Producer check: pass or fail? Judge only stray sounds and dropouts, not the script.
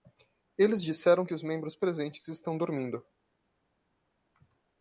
pass